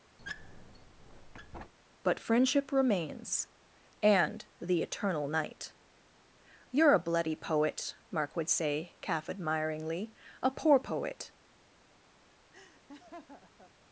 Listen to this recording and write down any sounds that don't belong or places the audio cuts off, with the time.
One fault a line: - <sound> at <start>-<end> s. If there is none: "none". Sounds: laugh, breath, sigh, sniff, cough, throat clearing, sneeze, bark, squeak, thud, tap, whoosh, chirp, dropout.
- squeak at 0.2-1.7 s
- laugh at 12.5-13.7 s